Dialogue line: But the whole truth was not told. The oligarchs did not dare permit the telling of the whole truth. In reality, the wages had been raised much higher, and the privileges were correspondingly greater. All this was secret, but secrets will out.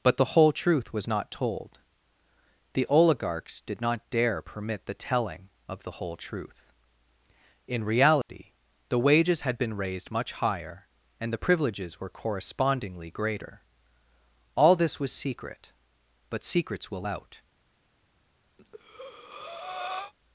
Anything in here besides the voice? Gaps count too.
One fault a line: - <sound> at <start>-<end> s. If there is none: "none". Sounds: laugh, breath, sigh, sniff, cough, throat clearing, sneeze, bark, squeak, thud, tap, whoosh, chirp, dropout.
- dropout at 8.2-8.3 s
- breath at 18.6-20.1 s